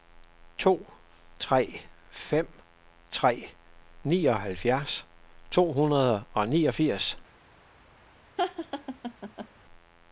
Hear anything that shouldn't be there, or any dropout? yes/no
yes